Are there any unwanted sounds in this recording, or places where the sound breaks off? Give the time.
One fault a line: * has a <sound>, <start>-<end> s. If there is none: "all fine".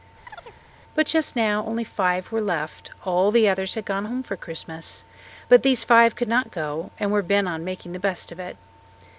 * has a chirp, 0.2-0.6 s